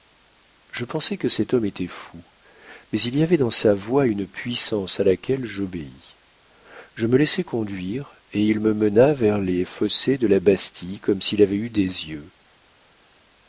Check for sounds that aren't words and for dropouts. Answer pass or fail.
pass